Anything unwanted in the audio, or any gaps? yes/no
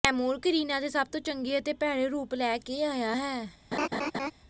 yes